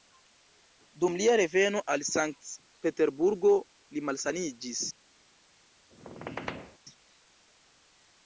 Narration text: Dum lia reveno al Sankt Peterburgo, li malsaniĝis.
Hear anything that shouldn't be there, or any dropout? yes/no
yes